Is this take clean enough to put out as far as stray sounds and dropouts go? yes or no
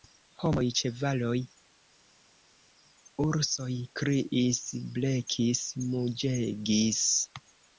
yes